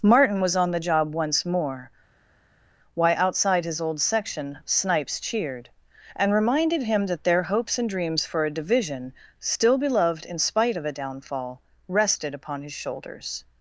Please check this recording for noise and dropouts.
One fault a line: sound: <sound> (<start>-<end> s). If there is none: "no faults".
no faults